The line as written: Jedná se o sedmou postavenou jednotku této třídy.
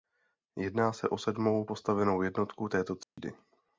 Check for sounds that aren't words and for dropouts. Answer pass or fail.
fail